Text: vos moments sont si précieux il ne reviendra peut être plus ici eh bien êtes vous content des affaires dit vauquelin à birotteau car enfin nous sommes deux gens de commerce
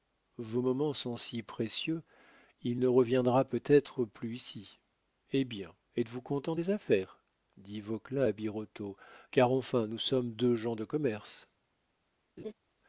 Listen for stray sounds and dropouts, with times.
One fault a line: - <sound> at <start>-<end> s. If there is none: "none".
- laugh at 12.4-12.5 s